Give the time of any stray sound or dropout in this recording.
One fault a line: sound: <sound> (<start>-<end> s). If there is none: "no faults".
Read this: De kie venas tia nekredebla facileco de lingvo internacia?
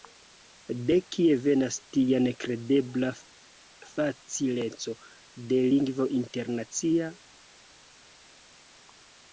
no faults